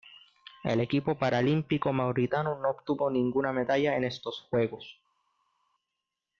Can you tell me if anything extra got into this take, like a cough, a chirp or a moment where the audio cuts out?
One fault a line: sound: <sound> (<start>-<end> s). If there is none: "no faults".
no faults